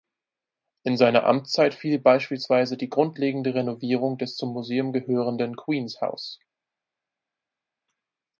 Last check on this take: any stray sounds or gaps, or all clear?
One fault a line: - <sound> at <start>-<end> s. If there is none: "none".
none